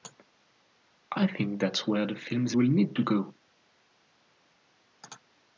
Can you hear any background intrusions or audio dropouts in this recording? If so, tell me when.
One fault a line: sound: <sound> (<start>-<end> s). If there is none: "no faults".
no faults